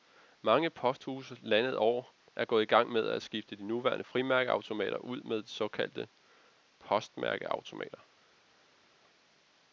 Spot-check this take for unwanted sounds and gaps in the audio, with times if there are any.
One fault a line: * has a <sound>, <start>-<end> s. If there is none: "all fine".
all fine